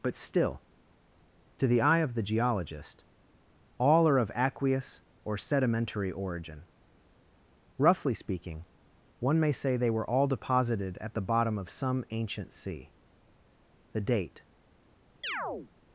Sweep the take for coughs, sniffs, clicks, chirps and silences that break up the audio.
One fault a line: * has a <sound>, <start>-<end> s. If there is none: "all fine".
* has a chirp, 15.2-15.7 s